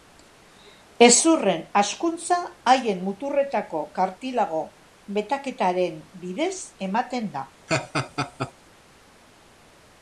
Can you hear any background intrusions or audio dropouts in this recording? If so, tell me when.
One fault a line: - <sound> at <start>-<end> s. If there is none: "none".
- laugh at 7.7-8.5 s